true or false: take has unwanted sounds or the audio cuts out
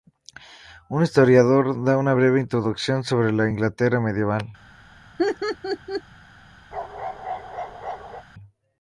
true